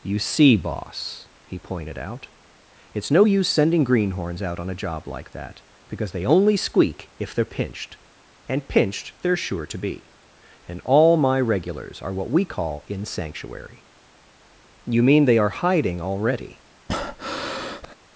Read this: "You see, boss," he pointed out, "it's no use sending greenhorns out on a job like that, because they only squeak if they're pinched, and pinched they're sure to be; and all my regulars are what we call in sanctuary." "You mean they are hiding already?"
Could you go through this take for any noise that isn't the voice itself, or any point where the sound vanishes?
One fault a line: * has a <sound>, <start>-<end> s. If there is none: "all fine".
* has a breath, 16.9-18.0 s